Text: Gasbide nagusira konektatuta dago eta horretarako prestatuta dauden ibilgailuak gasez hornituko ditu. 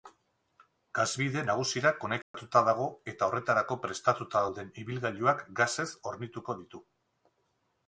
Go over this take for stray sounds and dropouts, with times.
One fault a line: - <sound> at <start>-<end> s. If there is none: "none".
- dropout at 2.2-2.3 s